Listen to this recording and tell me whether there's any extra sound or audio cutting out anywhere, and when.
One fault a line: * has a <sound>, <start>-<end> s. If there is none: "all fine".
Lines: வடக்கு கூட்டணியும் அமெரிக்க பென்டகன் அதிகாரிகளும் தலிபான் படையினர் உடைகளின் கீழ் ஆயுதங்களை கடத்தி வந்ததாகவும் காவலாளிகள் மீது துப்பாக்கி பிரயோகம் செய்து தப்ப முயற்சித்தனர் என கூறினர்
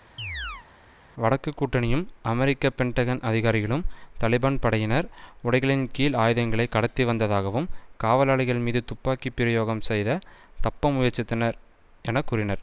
* has a chirp, 0.2-0.7 s